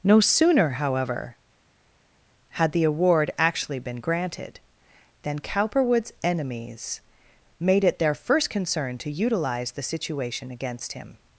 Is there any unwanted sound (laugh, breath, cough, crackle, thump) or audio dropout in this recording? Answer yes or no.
no